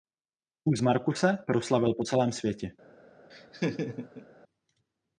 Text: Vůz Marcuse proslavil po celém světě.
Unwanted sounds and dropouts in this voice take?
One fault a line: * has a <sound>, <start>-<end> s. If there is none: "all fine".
* has a laugh, 3.3-4.3 s